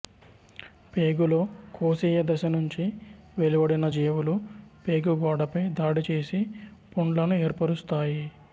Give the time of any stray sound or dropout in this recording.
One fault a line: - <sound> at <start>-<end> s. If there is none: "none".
none